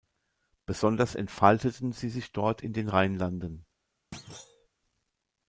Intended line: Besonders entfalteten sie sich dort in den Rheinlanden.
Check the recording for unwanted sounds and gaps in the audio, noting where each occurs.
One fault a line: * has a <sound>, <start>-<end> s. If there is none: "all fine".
* has a thud, 4.1-4.7 s